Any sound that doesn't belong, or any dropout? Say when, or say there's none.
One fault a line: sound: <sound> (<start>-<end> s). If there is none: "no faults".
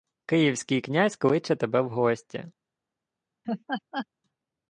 sound: laugh (3.4-4.1 s)